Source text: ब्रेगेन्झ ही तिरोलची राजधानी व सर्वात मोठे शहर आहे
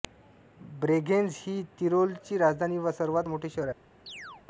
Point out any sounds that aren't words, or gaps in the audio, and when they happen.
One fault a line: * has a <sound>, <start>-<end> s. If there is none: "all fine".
* has a chirp, 4.1-4.5 s